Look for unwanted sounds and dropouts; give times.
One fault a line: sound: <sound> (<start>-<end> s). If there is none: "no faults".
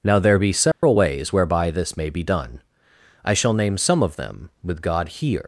sound: dropout (0.7-0.8 s)